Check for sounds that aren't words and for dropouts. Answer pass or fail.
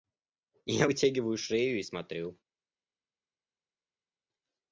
pass